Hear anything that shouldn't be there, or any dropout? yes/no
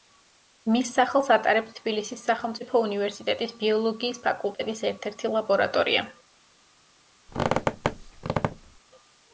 yes